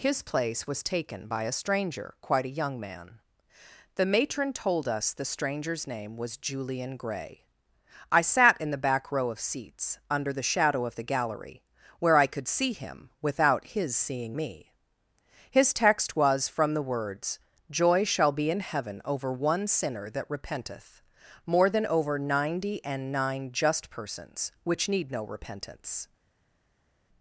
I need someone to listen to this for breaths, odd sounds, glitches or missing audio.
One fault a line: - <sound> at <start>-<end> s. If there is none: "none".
none